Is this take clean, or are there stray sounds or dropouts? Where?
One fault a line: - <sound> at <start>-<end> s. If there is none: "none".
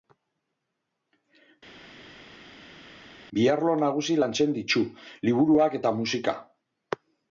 none